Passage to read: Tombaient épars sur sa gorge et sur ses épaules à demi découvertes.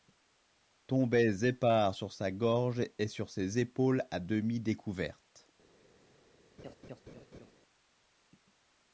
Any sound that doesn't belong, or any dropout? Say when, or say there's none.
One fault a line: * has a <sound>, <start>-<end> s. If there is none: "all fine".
* has a laugh, 6.6-7.5 s